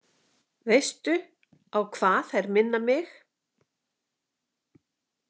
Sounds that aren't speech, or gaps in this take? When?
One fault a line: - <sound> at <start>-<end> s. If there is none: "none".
none